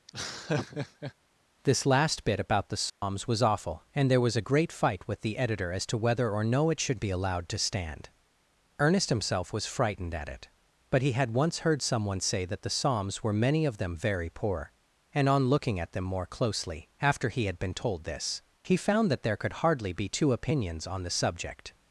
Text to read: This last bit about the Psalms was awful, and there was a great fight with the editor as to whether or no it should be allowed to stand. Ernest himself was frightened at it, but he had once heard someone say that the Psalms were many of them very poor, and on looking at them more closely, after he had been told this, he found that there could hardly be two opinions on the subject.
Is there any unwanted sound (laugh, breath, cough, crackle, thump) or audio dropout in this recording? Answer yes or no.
yes